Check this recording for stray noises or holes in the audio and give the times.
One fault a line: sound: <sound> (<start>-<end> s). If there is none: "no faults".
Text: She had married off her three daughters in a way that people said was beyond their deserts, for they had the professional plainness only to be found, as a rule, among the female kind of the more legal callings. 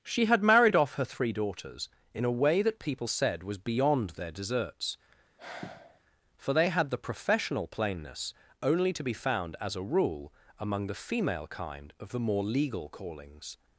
sound: sigh (5.4-6.0 s)